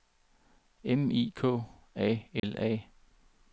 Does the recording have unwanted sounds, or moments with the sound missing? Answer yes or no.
yes